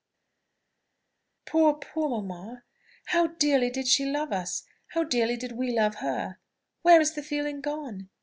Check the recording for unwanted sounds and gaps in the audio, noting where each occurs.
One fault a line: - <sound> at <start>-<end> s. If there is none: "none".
none